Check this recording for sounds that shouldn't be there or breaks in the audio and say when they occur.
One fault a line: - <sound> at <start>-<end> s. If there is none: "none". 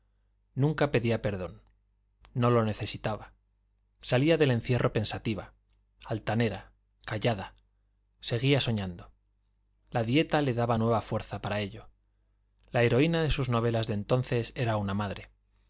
none